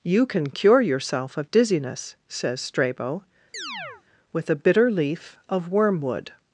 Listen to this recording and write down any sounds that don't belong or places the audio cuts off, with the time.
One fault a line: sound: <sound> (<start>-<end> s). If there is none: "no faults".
sound: chirp (3.5-4.0 s)